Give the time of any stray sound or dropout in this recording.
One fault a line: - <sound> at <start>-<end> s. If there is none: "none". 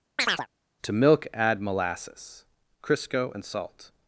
- chirp at 0.2-0.5 s